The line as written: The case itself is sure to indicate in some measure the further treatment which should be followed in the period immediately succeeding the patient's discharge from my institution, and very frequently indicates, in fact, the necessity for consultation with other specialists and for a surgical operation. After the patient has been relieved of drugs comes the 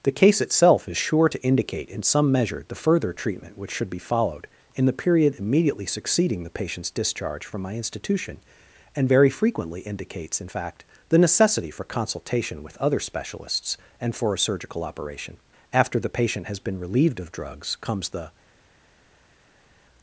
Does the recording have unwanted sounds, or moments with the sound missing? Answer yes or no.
no